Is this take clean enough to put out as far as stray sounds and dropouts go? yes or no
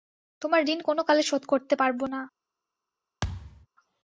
no